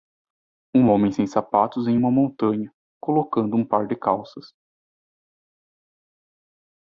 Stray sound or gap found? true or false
false